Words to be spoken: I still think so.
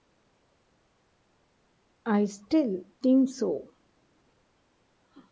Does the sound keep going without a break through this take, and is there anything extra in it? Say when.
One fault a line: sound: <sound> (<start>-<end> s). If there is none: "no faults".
no faults